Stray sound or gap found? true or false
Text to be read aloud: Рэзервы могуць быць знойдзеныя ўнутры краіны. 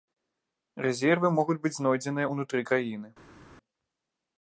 false